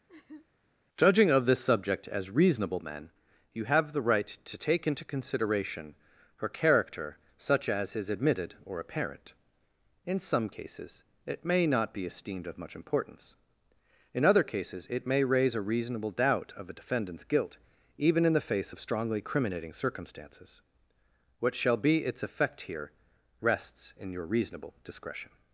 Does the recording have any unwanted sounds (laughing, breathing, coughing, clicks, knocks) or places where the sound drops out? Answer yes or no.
yes